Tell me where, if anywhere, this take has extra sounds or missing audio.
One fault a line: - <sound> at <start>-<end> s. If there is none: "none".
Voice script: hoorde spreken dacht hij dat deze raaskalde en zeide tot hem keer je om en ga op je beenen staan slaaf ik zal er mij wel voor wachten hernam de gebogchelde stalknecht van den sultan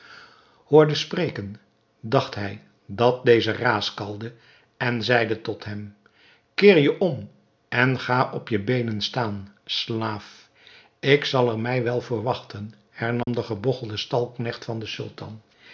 - dropout at 13.2-13.3 s